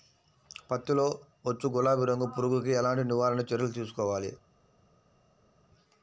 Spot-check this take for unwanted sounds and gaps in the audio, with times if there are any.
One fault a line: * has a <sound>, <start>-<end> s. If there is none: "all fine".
all fine